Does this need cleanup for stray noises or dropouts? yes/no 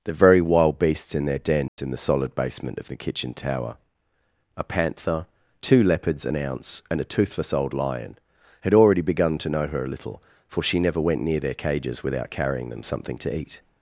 yes